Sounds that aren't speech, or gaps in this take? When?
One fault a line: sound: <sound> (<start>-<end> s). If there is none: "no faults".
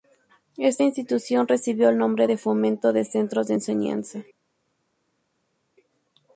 no faults